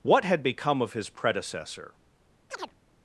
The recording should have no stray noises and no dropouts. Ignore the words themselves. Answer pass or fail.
fail